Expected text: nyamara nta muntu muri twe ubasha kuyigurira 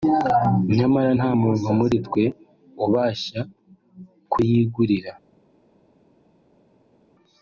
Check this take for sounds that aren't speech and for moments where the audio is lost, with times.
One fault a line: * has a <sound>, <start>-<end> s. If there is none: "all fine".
all fine